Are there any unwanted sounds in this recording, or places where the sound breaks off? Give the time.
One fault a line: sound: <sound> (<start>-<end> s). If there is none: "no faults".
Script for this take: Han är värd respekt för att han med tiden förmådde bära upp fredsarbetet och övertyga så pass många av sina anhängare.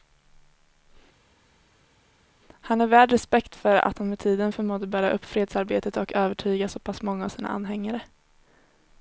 no faults